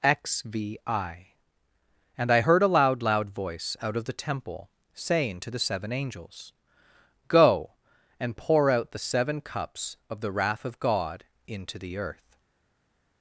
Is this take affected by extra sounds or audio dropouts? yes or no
no